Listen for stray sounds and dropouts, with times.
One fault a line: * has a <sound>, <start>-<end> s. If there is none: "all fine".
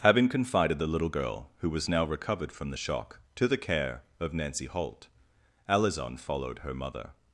all fine